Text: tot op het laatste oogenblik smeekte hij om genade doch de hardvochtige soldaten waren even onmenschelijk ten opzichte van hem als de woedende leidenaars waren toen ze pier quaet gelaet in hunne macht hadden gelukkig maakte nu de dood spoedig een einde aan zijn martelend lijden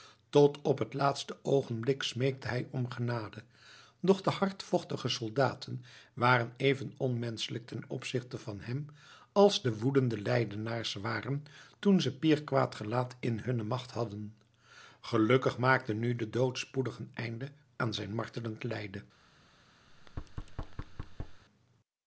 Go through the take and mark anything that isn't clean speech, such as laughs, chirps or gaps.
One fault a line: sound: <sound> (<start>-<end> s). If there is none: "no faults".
sound: thud (19.9-21.4 s)